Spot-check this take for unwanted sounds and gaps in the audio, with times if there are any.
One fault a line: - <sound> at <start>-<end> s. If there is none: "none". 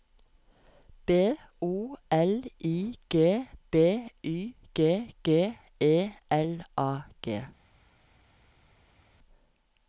none